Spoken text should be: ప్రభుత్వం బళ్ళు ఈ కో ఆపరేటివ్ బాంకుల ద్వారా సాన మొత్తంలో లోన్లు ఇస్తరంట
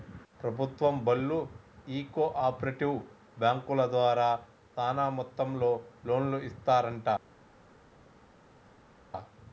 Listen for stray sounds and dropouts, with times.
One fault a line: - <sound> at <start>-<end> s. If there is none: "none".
none